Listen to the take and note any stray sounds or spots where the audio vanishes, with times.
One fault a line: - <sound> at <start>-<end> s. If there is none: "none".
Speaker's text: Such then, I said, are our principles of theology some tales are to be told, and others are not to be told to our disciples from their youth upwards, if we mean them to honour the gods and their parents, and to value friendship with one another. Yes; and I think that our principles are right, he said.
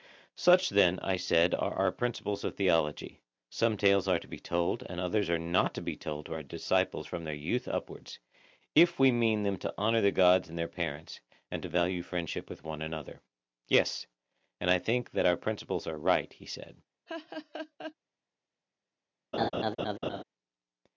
- laugh at 17.1-17.9 s
- laugh at 19.3-20.2 s